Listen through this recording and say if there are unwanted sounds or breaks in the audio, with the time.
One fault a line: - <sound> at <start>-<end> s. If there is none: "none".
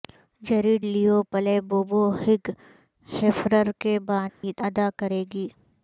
- dropout at 4.3-4.4 s